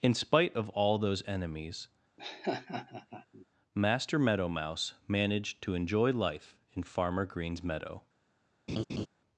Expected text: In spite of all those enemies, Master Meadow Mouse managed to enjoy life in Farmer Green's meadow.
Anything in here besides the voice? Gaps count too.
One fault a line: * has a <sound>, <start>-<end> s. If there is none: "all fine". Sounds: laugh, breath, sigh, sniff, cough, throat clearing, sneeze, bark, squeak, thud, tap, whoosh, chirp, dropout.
* has a laugh, 2.2-3.5 s
* has a laugh, 8.7-9.1 s